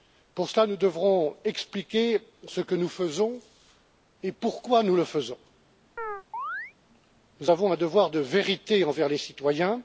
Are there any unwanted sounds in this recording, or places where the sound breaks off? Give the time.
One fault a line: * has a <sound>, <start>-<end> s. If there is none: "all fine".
* has a chirp, 6.0-6.7 s